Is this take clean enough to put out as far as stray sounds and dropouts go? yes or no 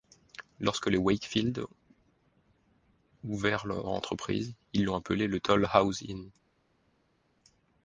yes